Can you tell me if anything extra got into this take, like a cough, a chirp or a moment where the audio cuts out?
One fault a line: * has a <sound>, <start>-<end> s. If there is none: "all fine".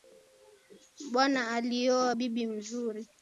all fine